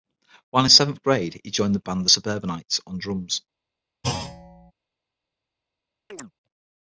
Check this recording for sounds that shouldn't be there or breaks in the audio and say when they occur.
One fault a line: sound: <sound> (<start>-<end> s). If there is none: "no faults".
sound: thud (4.0-4.7 s)
sound: chirp (6.1-6.3 s)